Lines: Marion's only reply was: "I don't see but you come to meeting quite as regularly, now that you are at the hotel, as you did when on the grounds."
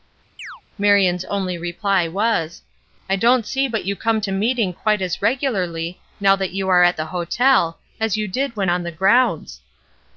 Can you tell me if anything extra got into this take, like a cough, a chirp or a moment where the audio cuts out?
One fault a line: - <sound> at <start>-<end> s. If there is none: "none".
- chirp at 0.4-0.6 s